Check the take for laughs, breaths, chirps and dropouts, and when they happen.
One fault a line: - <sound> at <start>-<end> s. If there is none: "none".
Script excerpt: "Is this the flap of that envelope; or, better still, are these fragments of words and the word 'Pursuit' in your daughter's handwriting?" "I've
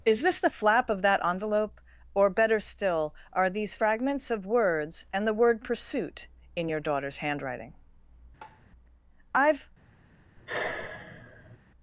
- tap at 8.4-8.7 s
- sigh at 10.4-11.6 s